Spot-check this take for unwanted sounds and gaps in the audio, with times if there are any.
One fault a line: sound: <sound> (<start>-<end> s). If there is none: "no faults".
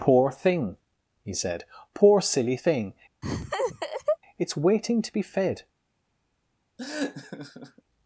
sound: laugh (3.2-4.2 s)
sound: laugh (6.8-7.8 s)